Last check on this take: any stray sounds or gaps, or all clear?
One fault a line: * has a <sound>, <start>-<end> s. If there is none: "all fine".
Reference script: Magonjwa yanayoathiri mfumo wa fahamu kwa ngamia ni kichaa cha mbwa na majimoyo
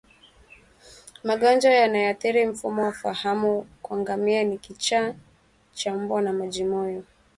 all fine